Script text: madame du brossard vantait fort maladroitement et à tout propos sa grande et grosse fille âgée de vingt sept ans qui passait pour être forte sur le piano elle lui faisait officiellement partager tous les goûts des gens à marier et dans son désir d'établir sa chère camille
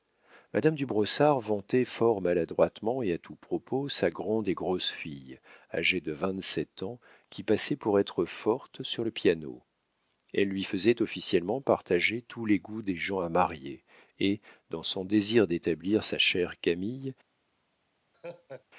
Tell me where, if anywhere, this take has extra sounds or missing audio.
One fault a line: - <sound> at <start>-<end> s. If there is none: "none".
- laugh at 18.1-18.7 s